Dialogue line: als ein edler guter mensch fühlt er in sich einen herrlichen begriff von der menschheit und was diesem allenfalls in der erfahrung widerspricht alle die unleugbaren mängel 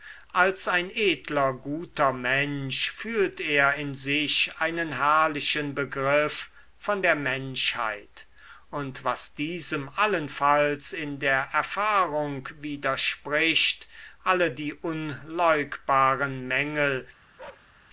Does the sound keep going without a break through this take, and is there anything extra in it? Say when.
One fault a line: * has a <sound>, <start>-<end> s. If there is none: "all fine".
* has a bark, 17.4-17.7 s